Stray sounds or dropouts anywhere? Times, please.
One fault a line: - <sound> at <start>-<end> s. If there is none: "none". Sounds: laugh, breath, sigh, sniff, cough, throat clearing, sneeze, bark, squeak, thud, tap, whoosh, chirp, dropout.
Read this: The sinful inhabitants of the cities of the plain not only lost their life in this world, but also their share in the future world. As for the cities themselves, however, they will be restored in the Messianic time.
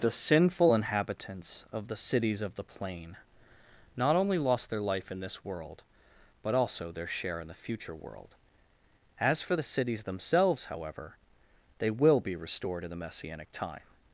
none